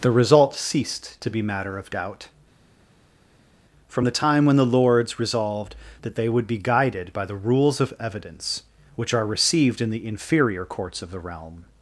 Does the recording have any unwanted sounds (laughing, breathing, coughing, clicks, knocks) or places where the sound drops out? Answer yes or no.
no